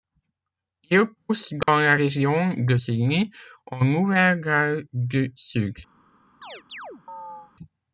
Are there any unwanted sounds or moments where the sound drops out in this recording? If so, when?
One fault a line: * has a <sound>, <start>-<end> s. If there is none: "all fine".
* has a dropout, 1.6-1.7 s
* has a chirp, 6.4-7.5 s